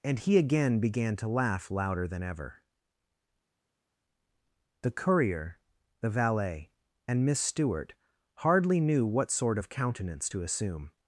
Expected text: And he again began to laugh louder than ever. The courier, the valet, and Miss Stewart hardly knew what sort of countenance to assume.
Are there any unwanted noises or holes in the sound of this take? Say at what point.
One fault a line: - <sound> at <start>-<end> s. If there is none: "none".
none